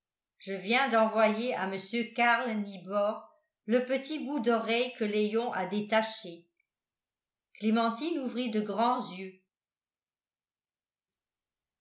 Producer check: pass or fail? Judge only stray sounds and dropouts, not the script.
pass